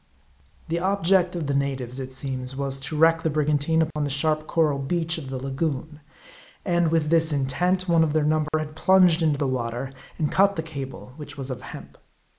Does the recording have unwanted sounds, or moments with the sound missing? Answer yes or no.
yes